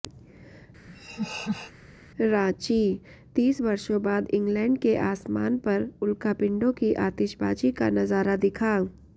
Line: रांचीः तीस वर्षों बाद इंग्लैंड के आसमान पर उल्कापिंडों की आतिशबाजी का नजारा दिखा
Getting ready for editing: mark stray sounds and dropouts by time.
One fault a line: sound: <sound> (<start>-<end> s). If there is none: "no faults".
sound: laugh (0.9-1.7 s)